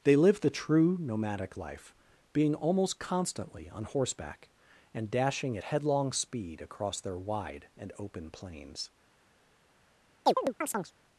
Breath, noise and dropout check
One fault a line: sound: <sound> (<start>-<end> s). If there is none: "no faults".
sound: chirp (10.3-10.9 s)